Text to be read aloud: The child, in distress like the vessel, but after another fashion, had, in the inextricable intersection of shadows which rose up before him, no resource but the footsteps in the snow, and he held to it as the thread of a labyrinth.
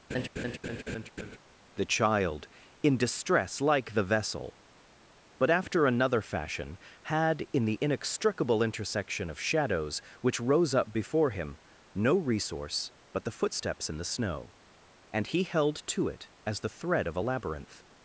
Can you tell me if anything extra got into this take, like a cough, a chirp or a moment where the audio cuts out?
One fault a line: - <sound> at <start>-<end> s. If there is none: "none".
- laugh at 0.1-1.4 s